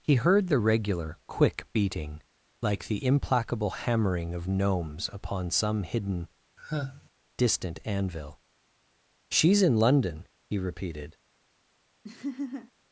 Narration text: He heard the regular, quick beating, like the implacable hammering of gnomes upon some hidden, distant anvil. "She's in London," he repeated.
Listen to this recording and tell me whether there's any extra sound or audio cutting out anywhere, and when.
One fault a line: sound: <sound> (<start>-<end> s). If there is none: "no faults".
sound: sigh (6.6-7.1 s)
sound: laugh (12.0-12.7 s)